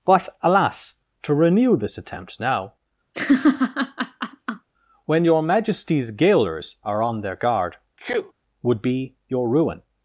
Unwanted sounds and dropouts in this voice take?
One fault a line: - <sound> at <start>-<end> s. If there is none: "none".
- laugh at 3.1-4.7 s
- sneeze at 8.0-8.3 s